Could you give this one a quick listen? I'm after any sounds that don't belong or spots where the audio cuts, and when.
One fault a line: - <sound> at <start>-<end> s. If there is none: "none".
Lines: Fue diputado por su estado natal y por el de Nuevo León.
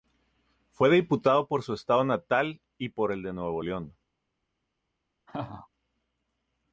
- laugh at 5.3-5.7 s